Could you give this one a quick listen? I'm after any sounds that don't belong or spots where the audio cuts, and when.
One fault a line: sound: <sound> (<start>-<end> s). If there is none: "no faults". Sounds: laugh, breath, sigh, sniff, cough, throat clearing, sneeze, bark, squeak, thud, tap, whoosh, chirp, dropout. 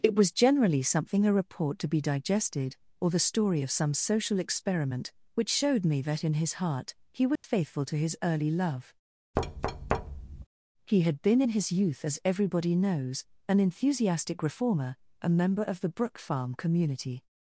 sound: dropout (7.4-7.4 s)
sound: thud (9.4-10.5 s)